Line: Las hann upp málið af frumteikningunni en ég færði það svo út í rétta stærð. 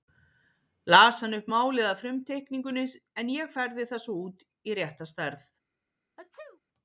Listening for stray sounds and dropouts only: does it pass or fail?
fail